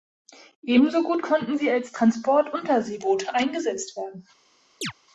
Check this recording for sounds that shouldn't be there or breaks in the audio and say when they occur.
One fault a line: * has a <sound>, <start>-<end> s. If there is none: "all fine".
* has a chirp, 4.8-4.9 s